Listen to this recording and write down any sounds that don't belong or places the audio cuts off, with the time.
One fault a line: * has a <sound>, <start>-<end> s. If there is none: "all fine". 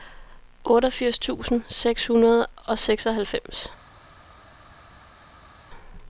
all fine